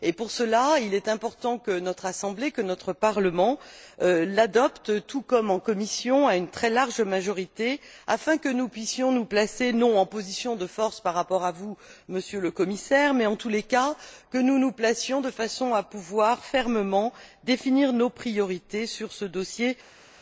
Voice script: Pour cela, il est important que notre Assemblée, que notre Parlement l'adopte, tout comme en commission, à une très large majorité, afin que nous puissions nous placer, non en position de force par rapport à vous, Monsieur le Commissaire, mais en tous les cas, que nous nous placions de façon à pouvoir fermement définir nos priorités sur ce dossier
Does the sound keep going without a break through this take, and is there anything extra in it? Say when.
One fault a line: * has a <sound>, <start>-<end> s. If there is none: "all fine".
all fine